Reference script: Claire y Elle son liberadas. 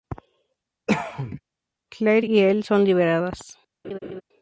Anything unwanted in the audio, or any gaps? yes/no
yes